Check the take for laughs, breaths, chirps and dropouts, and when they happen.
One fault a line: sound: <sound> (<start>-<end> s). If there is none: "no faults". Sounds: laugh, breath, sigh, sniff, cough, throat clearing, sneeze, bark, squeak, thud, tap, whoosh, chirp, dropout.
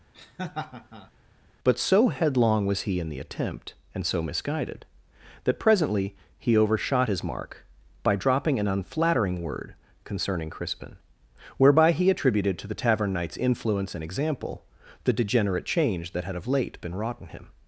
sound: laugh (0.1-1.1 s)